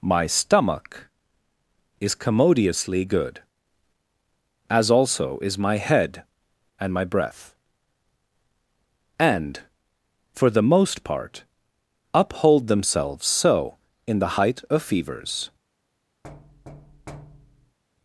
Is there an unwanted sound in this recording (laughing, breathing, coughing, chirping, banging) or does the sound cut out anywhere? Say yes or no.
yes